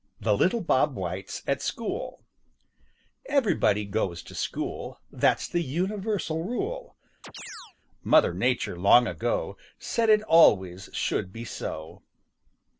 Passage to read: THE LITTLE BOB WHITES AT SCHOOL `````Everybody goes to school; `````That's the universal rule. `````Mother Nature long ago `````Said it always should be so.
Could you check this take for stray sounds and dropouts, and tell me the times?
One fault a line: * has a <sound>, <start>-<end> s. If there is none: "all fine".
* has a chirp, 7.2-7.7 s